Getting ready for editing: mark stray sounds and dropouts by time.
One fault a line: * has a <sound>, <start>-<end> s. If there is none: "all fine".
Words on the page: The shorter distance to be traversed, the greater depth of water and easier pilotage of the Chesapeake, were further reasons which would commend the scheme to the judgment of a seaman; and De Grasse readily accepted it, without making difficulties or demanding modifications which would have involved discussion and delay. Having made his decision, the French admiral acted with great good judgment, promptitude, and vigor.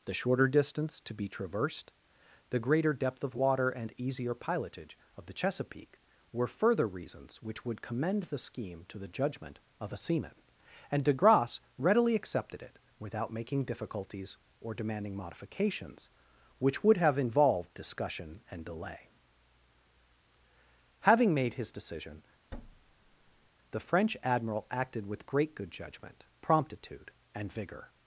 * has a thud, 22.5-23.5 s